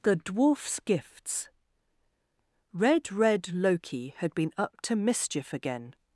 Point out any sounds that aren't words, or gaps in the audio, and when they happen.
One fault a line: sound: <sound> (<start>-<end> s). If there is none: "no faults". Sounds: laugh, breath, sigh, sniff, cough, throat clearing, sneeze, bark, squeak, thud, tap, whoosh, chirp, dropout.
no faults